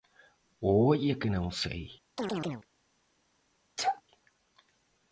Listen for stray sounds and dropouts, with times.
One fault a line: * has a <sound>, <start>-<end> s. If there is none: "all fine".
* has a chirp, 2.2-2.7 s
* has a sneeze, 3.8-4.0 s